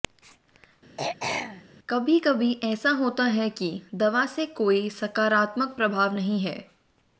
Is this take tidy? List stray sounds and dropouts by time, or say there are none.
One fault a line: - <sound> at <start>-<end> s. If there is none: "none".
- throat clearing at 1.0-1.6 s